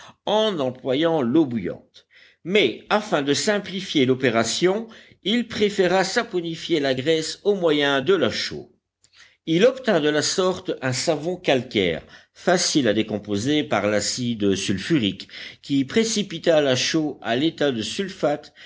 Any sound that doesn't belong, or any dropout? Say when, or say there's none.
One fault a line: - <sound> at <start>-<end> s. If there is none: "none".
none